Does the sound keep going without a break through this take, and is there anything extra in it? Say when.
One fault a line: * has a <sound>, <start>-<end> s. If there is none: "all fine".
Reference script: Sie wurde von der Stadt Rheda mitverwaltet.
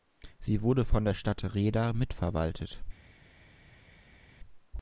all fine